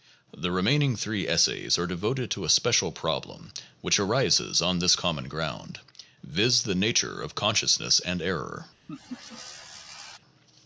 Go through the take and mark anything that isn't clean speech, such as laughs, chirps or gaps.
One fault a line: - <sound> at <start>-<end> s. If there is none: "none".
- laugh at 8.9-10.2 s